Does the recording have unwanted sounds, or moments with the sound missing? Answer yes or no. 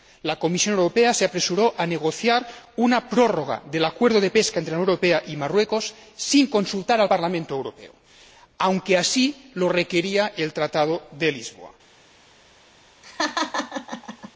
yes